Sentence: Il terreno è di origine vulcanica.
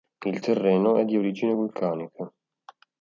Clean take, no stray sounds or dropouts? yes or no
yes